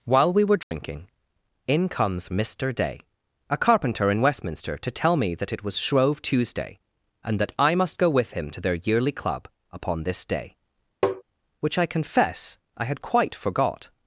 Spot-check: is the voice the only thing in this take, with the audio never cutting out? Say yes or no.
no